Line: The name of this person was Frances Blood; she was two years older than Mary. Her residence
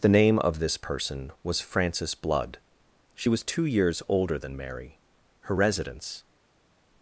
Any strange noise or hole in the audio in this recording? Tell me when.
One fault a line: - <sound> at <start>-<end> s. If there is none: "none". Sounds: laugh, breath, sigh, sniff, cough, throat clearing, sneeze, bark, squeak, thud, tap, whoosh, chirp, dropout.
none